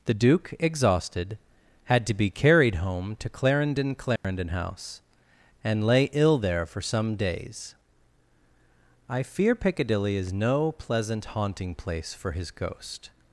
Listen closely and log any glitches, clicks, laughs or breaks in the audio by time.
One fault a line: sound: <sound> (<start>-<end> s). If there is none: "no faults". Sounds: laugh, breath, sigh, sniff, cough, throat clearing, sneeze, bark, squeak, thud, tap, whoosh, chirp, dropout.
sound: dropout (4.2-4.2 s)